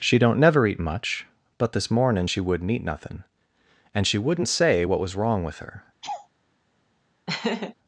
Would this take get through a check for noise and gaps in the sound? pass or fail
fail